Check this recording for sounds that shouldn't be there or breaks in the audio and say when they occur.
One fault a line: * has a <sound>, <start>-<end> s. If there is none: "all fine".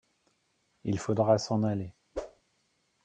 * has a whoosh, 2.1-2.4 s